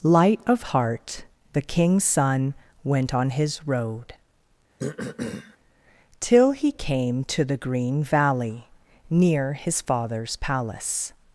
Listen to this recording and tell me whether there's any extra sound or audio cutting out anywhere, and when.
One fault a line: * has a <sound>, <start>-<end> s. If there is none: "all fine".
* has a throat clearing, 4.8-5.6 s